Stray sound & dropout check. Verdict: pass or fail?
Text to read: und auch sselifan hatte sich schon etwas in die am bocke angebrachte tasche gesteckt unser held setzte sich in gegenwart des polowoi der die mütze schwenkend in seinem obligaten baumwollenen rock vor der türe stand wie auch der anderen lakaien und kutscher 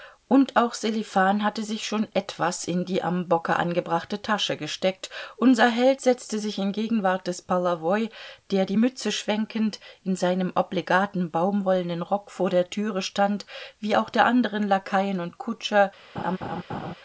fail